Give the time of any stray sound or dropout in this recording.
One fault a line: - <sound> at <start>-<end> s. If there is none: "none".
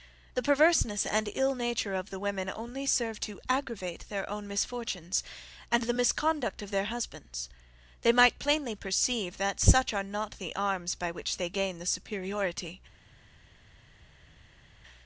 none